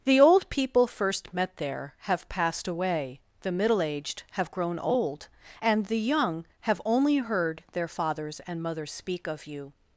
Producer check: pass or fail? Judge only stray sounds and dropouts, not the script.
pass